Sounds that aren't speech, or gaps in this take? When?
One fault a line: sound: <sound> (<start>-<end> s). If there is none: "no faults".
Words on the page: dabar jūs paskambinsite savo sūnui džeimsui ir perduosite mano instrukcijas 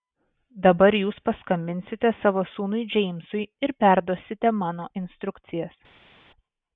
no faults